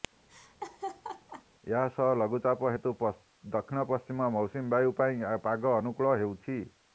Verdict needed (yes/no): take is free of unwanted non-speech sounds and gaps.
no